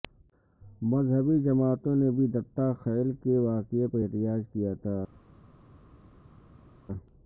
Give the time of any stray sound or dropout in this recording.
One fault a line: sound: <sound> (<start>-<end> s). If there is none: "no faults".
no faults